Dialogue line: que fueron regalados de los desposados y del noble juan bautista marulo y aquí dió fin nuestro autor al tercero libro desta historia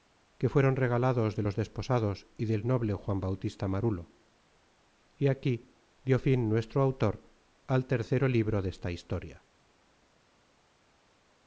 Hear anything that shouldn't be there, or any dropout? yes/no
no